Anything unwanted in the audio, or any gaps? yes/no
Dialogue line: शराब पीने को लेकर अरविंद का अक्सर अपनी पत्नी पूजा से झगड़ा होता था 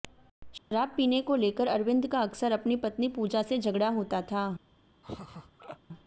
yes